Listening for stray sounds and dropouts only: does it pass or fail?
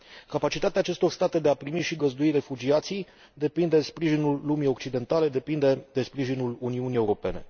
pass